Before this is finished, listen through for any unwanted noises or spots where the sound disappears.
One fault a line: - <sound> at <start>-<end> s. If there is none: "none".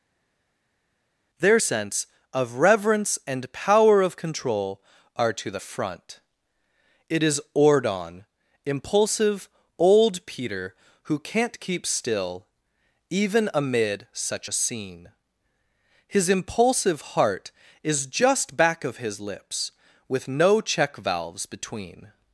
none